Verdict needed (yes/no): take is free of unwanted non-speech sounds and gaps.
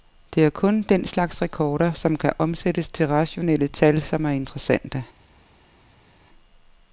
yes